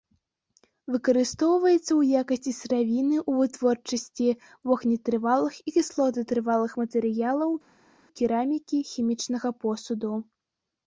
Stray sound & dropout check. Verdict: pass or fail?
pass